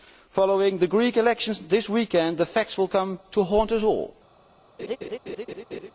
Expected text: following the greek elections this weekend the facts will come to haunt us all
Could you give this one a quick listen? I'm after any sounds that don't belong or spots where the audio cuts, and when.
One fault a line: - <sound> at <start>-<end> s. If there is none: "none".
- laugh at 4.8-5.9 s